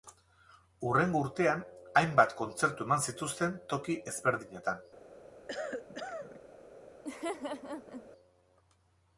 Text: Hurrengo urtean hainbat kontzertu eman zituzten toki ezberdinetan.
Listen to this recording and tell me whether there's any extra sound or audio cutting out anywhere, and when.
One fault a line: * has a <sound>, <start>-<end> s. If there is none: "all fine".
* has a cough, 5.5-6.4 s
* has a laugh, 7.0-8.1 s